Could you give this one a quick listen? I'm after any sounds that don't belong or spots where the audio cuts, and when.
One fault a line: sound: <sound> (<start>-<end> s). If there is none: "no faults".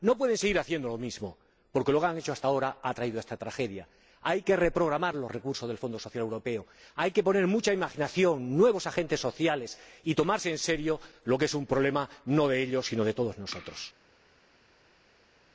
no faults